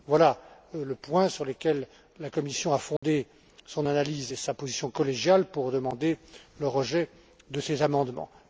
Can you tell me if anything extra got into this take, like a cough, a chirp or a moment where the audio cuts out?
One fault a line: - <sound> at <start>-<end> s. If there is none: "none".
- dropout at 3.0-3.0 s